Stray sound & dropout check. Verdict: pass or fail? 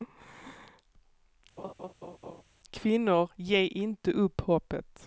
fail